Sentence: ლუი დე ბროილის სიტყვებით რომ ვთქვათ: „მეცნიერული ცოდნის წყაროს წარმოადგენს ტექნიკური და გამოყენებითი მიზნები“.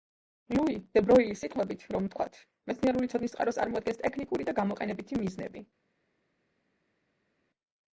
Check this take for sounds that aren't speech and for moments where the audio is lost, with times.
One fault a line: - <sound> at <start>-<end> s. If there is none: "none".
none